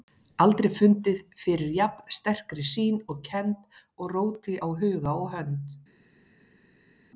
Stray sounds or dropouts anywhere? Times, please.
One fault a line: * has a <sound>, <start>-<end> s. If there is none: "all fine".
all fine